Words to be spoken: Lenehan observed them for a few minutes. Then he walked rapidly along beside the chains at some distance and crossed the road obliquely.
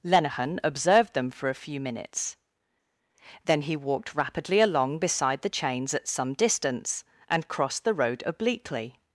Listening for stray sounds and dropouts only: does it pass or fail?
pass